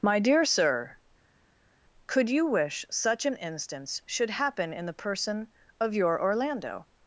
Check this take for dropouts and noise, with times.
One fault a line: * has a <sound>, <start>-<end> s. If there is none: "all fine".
all fine